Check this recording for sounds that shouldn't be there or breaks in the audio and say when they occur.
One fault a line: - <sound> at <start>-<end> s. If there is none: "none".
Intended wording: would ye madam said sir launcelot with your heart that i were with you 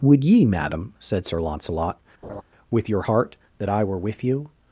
- laugh at 2.2-2.4 s